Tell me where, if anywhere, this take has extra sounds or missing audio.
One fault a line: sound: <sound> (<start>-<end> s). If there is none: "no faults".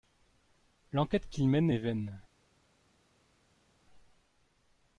no faults